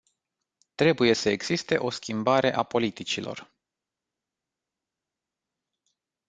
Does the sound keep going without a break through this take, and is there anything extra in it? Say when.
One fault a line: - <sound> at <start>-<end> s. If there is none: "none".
none